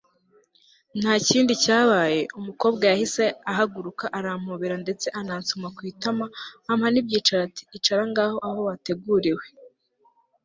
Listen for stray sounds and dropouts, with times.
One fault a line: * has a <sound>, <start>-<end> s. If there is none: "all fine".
all fine